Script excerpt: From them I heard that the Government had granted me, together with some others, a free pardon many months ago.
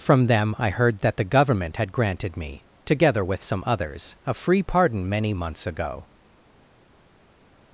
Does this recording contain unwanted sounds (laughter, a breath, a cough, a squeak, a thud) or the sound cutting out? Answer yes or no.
no